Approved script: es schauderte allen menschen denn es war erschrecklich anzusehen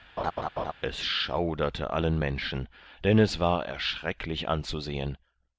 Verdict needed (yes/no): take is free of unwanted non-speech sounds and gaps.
no